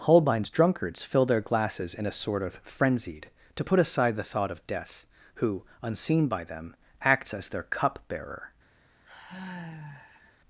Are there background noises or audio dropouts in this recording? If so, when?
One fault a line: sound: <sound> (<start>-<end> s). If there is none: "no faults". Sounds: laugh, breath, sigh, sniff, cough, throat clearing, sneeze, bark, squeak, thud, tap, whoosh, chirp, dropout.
sound: sigh (9.1-10.4 s)